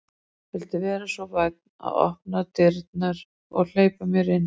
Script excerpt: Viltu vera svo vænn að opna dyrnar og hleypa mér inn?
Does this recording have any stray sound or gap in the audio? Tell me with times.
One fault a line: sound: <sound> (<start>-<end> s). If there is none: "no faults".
no faults